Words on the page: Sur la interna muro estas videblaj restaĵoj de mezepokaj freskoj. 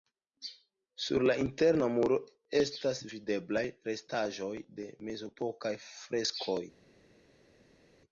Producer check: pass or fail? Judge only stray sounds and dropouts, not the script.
pass